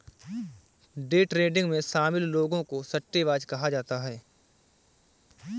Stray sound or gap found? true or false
false